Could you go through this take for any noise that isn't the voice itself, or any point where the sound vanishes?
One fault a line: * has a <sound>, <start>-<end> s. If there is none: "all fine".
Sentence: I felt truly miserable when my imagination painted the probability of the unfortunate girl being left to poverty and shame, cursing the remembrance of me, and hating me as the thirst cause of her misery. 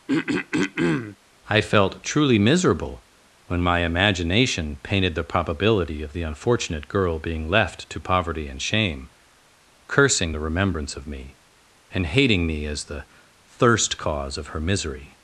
* has a throat clearing, 0.1-1.2 s